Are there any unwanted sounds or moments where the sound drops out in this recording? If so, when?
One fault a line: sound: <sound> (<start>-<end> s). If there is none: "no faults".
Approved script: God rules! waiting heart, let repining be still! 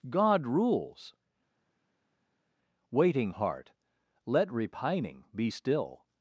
no faults